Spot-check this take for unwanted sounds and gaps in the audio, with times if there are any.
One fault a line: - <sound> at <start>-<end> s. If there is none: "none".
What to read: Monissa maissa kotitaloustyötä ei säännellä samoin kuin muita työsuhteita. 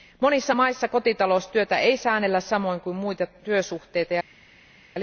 none